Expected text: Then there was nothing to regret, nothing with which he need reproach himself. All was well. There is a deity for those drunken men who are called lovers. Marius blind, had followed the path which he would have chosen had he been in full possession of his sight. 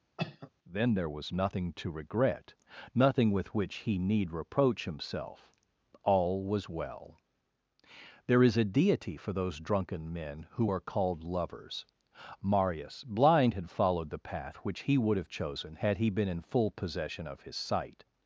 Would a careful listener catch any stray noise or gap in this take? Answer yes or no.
yes